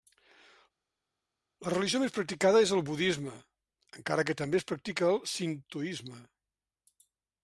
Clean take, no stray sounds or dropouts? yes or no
yes